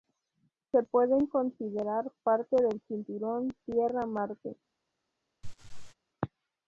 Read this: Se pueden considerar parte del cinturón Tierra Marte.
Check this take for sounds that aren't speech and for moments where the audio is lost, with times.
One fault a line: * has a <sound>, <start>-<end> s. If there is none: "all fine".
* has a laugh, 5.4-5.9 s